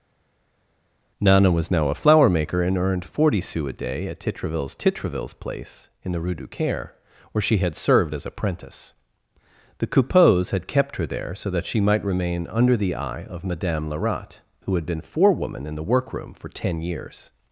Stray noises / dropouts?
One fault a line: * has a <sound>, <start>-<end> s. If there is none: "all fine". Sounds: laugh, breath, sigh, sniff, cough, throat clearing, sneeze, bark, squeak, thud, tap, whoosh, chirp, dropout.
all fine